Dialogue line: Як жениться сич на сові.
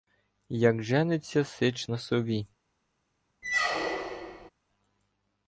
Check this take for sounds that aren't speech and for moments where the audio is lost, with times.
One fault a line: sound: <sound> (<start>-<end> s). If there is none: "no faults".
sound: squeak (3.4-4.5 s)